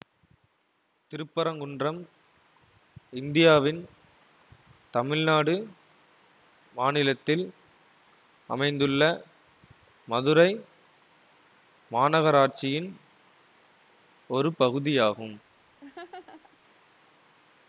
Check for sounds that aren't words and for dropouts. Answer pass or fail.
fail